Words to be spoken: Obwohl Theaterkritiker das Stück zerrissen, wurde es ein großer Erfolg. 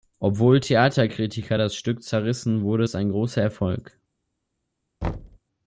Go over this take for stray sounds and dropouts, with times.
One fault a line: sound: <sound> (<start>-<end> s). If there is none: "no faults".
sound: thud (5.0-5.4 s)